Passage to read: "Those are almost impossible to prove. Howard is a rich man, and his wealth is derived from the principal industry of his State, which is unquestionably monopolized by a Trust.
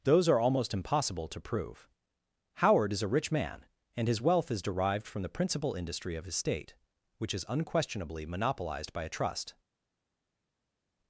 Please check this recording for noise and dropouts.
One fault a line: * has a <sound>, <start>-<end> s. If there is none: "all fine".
all fine